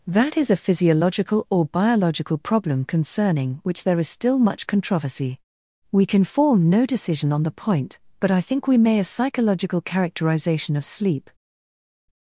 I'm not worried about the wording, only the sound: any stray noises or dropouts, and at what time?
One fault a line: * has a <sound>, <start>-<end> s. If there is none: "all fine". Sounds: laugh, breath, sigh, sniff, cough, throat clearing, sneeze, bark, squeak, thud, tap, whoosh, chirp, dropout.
all fine